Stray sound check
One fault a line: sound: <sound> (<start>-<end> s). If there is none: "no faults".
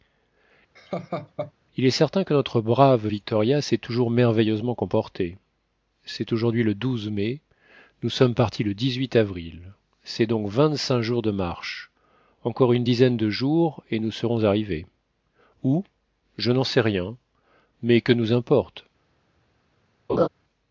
sound: laugh (0.8-1.5 s)
sound: laugh (20.1-20.3 s)